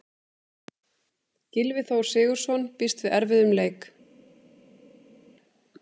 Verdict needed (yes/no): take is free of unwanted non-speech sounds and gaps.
yes